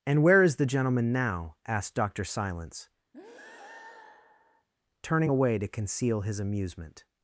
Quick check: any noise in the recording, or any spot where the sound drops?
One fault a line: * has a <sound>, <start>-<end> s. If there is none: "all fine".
* has a breath, 3.1-4.7 s